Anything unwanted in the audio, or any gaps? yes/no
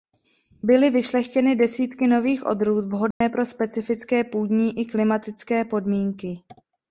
yes